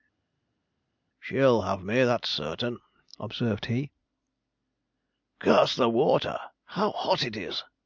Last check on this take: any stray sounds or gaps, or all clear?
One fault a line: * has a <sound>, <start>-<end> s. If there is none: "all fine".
all fine